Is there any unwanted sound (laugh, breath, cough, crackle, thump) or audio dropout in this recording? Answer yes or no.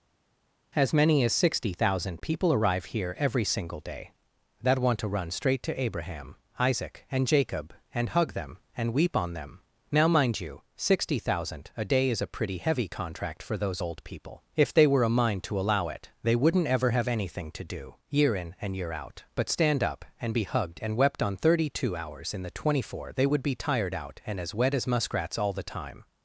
no